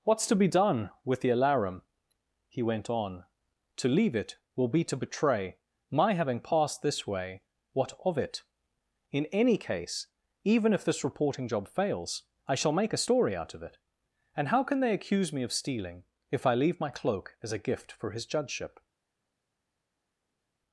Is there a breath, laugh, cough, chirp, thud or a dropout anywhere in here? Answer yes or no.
no